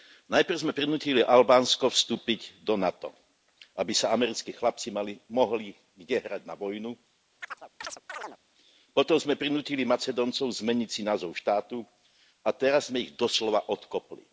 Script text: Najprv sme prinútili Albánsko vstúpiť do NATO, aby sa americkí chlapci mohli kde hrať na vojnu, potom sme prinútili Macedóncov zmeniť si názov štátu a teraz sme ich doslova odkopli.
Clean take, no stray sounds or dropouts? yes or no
no